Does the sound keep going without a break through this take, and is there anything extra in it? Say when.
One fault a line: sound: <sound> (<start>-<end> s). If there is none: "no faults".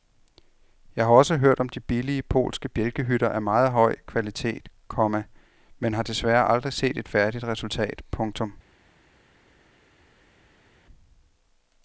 no faults